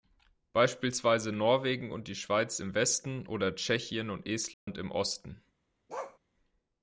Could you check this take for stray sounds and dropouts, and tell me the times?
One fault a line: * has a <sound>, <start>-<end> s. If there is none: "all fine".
* has a dropout, 4.5-4.7 s
* has a bark, 5.9-6.2 s